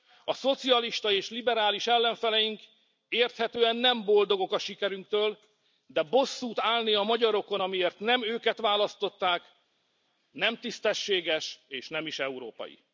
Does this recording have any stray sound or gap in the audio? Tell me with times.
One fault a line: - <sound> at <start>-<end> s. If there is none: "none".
none